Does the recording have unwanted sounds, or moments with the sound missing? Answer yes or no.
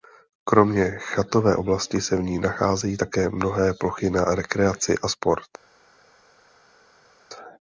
no